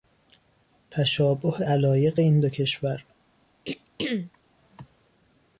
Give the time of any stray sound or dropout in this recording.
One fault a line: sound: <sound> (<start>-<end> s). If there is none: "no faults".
sound: throat clearing (3.6-4.4 s)